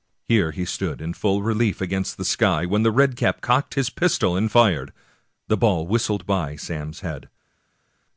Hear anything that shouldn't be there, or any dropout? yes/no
no